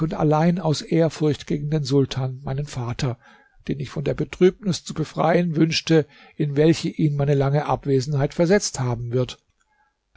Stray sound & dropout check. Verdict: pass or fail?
pass